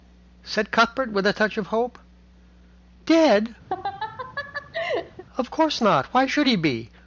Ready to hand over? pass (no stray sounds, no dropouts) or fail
fail